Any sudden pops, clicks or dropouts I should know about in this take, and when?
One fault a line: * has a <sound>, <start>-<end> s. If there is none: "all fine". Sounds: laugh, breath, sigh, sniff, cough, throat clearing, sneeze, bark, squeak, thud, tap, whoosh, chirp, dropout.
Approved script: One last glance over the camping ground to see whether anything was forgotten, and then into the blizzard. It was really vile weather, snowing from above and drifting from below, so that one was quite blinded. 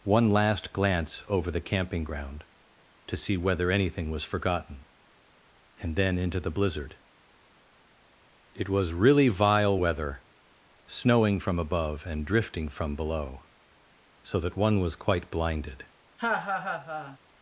* has a laugh, 16.2-17.2 s